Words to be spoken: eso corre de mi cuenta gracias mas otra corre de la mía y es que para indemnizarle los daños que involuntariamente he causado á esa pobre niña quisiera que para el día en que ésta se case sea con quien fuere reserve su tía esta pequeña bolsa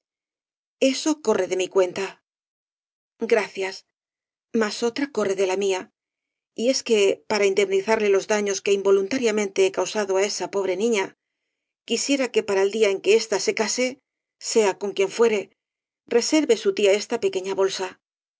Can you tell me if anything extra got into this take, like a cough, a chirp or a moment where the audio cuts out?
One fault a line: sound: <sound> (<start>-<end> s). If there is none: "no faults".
no faults